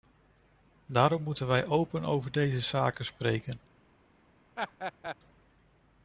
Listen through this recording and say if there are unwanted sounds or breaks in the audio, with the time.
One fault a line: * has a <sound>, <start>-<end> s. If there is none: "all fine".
* has a laugh, 4.6-5.2 s